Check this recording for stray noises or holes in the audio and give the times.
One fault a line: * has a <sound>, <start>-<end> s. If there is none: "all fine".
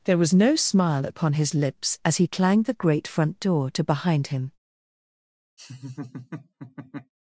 * has a laugh, 5.6-7.1 s